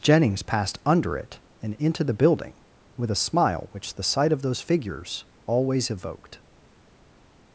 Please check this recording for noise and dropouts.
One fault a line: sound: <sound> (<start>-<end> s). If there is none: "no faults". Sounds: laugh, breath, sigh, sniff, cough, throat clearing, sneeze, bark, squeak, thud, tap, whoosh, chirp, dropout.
no faults